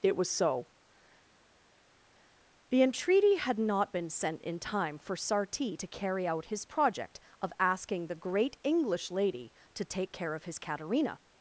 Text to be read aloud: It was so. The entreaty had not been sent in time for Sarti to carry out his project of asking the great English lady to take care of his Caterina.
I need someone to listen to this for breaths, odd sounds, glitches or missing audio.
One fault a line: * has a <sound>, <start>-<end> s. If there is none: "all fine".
all fine